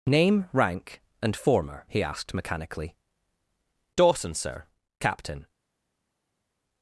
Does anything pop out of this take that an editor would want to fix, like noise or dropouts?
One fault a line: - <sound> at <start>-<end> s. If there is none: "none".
none